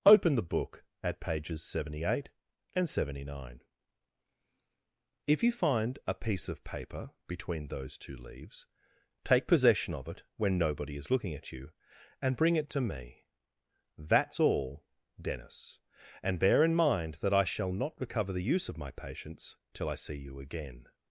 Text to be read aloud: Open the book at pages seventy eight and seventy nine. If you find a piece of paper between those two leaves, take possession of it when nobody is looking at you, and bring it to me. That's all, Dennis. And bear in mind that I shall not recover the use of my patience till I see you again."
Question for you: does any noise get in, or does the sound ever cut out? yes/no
no